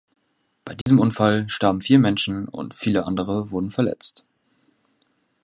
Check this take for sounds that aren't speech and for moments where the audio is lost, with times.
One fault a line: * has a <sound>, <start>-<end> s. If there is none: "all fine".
* has a dropout, 0.8-0.9 s